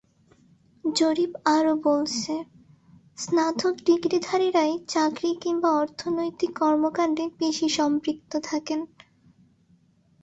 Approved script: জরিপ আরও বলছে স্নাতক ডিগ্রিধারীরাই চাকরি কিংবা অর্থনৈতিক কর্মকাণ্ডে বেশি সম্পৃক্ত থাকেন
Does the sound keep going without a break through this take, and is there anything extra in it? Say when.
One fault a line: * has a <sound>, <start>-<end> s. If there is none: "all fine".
all fine